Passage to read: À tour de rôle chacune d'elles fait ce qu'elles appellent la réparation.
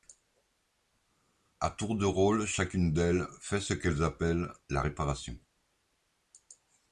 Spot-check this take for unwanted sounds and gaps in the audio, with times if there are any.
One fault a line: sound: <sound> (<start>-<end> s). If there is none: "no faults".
no faults